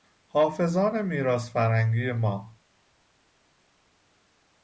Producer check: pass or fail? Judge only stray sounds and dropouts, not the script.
pass